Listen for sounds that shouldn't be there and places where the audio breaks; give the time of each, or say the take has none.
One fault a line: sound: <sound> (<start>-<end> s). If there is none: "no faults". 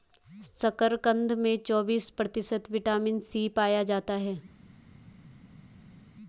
no faults